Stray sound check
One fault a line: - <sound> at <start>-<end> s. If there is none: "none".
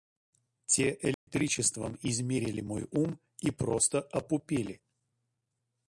- dropout at 1.1-1.3 s